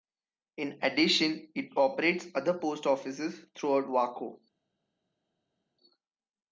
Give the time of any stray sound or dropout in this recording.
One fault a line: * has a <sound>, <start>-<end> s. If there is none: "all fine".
all fine